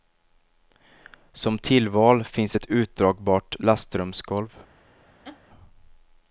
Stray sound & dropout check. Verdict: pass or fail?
fail